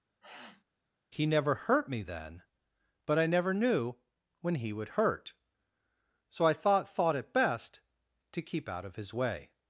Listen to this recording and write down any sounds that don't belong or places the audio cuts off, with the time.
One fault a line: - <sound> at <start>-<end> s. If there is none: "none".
- sniff at 0.2-0.6 s